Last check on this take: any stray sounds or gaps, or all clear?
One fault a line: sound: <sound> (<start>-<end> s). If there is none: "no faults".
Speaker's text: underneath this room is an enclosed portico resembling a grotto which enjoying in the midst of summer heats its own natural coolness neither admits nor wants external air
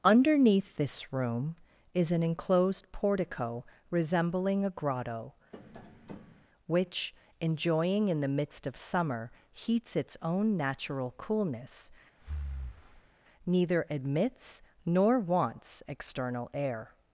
sound: tap (5.5-6.5 s)
sound: breath (12.2-13.1 s)